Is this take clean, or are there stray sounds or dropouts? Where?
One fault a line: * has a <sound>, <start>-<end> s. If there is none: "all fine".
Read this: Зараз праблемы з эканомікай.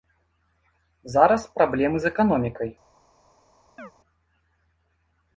* has a chirp, 3.8-3.9 s